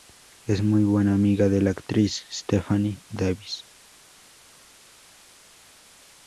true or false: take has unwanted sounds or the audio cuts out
false